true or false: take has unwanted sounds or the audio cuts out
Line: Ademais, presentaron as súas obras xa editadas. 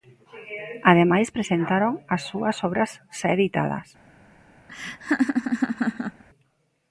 true